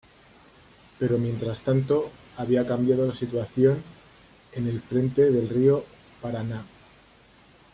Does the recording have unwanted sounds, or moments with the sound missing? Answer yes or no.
no